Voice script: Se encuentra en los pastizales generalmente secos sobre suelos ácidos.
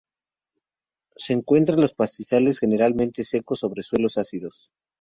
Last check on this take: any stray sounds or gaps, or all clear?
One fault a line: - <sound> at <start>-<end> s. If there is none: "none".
none